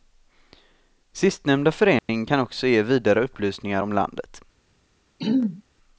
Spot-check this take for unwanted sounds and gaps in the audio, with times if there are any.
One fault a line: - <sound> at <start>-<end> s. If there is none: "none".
- dropout at 2.0-2.1 s
- throat clearing at 5.2-5.6 s